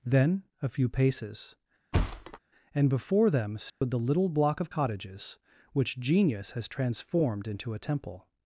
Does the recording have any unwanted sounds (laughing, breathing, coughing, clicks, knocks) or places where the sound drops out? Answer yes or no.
yes